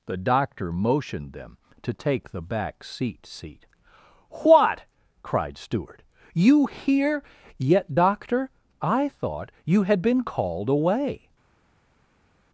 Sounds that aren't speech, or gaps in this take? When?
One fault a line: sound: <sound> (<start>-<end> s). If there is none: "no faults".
no faults